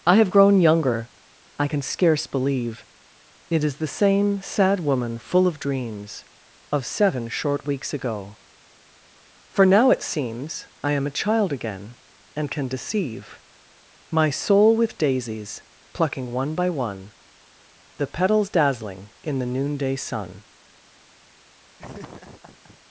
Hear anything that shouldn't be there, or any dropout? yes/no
yes